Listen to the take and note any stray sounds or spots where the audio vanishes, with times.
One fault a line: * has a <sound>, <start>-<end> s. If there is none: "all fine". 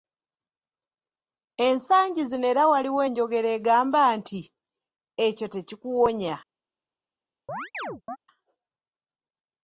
* has a chirp, 7.5-8.2 s